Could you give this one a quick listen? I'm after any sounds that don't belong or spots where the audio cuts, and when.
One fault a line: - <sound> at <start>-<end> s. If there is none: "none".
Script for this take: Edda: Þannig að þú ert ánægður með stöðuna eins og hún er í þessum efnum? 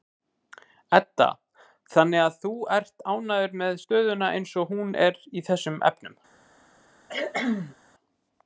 - cough at 7.1-7.8 s